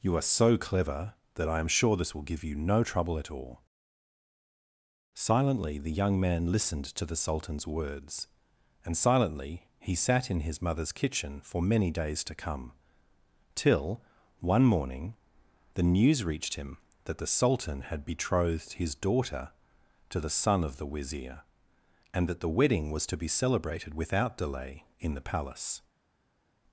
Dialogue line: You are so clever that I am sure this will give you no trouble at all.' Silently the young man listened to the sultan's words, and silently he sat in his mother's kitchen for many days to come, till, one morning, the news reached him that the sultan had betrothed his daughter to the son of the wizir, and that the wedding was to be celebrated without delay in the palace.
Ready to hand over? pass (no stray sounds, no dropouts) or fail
pass